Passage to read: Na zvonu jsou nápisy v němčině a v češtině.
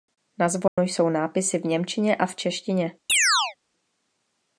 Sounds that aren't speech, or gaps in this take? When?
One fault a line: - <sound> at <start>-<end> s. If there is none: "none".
- dropout at 0.7-0.8 s
- chirp at 3.1-3.6 s